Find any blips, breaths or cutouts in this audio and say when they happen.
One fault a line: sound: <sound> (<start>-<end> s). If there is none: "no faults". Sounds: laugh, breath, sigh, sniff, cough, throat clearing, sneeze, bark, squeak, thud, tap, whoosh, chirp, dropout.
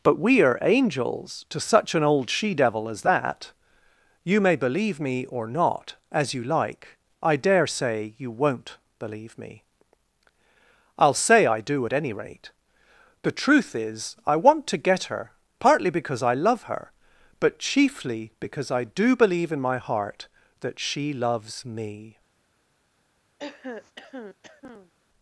sound: throat clearing (23.4-24.9 s)